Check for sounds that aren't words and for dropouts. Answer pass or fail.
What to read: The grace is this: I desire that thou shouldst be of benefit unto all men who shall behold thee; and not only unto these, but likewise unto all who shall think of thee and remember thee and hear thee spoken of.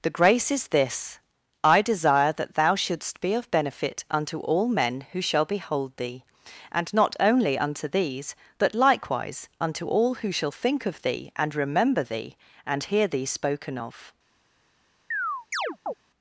fail